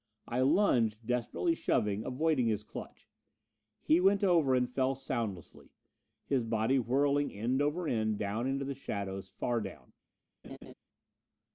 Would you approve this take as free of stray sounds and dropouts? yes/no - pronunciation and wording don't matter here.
no